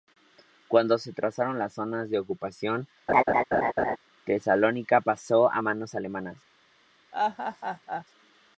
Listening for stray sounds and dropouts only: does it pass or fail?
fail